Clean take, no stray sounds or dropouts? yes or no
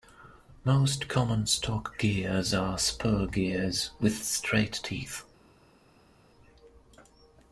yes